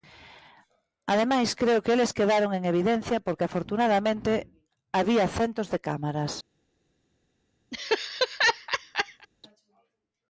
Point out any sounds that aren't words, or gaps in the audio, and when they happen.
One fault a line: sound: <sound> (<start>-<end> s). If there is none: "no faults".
sound: laugh (7.7-9.3 s)